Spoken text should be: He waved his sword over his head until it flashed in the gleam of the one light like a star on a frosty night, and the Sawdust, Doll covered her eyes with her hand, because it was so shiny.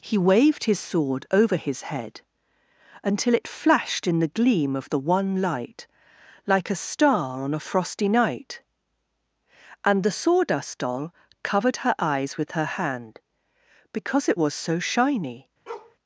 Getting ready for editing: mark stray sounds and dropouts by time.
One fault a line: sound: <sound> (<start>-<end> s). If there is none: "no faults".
sound: bark (15.7-16.0 s)